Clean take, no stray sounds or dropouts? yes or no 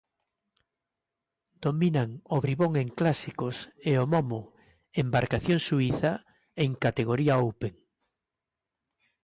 yes